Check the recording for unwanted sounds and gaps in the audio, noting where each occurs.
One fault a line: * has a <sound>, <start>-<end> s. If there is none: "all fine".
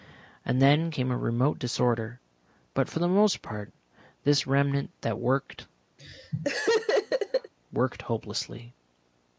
* has a laugh, 6.0-7.5 s